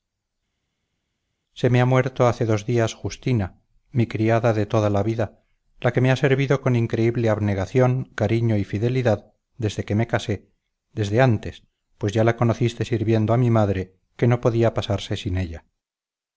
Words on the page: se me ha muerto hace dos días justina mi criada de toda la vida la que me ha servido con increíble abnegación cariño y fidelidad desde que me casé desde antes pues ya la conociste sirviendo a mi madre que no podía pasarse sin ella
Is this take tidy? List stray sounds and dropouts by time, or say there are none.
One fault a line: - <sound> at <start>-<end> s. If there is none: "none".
none